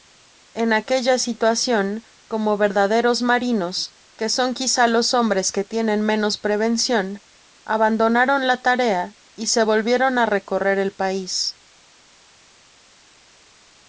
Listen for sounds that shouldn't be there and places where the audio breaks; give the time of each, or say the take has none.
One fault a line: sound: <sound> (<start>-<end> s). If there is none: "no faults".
no faults